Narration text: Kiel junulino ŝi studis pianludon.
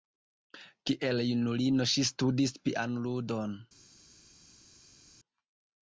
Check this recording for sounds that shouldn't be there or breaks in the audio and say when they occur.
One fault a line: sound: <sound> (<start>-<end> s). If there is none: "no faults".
no faults